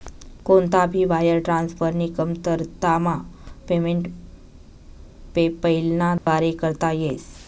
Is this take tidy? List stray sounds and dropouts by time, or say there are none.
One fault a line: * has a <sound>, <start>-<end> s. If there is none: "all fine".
* has a dropout, 6.2-6.3 s